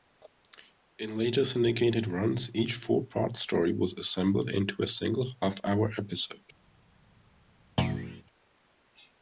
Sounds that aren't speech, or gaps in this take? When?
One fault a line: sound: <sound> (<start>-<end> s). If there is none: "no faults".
sound: thud (7.8-8.2 s)